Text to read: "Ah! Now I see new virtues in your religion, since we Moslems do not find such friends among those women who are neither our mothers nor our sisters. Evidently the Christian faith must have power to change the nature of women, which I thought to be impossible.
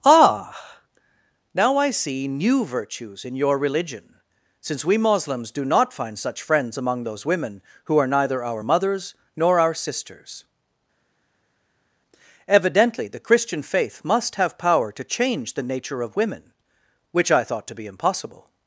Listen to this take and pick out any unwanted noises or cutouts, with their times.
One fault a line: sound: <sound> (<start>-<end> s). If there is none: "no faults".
no faults